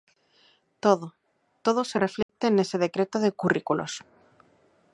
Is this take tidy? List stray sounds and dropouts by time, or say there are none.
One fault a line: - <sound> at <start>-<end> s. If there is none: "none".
- dropout at 2.2-2.3 s